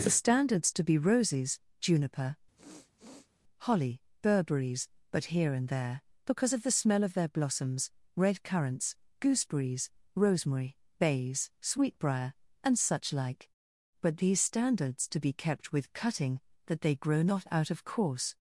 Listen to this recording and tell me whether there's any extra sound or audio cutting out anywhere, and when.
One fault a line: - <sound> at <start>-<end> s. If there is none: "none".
- sniff at 2.6-3.3 s